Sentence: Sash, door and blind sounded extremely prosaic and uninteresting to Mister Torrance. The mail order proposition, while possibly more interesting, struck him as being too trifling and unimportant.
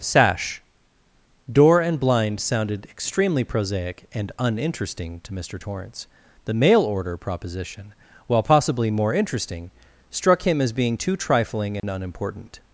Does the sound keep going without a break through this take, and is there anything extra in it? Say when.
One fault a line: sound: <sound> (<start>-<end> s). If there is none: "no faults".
sound: dropout (11.8-11.8 s)